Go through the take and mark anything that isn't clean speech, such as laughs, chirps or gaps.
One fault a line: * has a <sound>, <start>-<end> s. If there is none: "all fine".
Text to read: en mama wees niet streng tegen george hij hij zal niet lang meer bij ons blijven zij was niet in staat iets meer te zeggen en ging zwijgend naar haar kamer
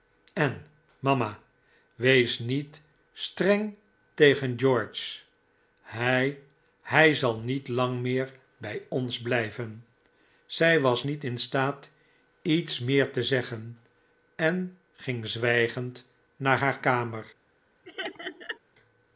* has a laugh, 17.8-18.6 s